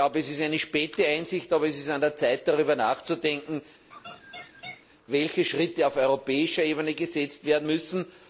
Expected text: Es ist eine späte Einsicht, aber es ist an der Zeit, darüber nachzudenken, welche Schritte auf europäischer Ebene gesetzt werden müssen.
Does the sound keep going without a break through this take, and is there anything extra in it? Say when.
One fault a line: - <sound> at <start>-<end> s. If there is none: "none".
- laugh at 3.9-4.9 s